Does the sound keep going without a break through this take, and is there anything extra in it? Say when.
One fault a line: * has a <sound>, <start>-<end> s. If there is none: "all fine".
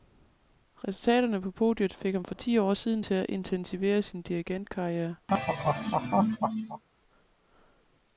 * has a laugh, 5.3-6.8 s